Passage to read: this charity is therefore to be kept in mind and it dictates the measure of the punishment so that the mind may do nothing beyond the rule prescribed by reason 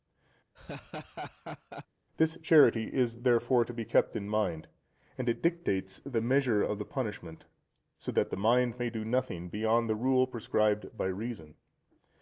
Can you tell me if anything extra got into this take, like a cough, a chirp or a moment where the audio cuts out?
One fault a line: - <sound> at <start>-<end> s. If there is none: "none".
- laugh at 0.5-1.9 s